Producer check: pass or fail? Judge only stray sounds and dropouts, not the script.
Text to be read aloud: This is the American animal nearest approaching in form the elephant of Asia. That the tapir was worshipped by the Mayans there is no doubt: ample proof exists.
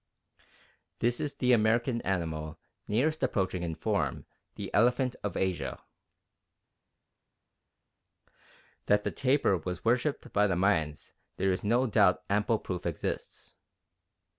pass